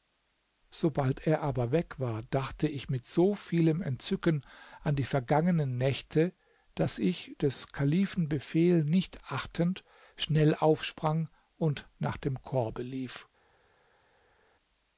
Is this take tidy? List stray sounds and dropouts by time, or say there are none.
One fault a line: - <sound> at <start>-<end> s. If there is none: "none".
none